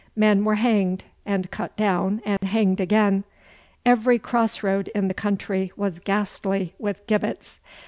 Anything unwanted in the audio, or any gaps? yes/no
yes